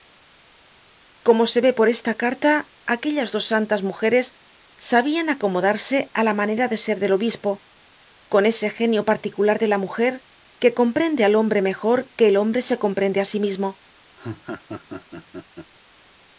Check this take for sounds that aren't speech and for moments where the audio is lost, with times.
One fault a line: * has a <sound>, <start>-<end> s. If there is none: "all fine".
* has a laugh, 14.2-15.7 s